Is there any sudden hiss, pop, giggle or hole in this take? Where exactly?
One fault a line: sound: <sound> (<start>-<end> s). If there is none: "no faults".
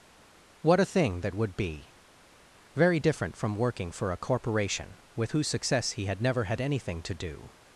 no faults